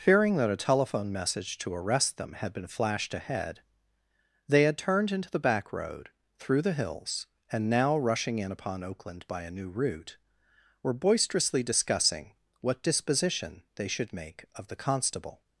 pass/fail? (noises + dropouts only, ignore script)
pass